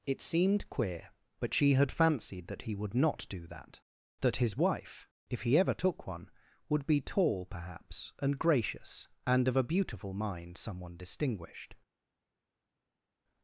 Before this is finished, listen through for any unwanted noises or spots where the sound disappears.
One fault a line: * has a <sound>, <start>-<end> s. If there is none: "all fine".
all fine